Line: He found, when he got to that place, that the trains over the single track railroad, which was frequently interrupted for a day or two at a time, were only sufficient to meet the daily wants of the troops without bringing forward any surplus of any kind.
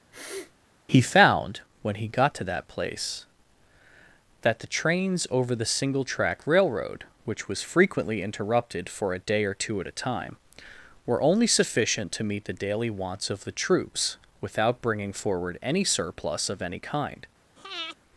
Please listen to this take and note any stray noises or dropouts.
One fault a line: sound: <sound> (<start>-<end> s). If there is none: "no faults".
sound: sniff (0.1-0.5 s)
sound: breath (17.6-18.0 s)